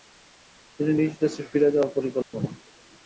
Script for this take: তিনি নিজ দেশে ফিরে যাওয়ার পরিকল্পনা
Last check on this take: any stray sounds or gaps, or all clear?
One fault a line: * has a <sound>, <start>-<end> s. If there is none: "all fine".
* has a dropout, 2.2-2.3 s